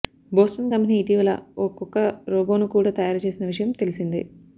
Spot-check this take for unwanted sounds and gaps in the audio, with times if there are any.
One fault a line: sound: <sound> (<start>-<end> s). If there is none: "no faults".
no faults